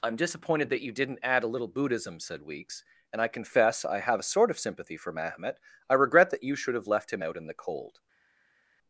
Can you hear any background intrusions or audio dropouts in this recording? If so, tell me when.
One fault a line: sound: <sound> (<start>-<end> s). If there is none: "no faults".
no faults